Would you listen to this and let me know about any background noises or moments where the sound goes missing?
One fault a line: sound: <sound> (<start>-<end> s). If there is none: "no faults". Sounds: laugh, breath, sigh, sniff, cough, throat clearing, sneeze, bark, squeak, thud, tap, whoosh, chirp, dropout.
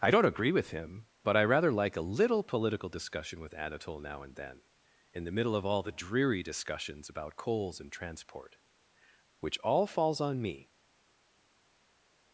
no faults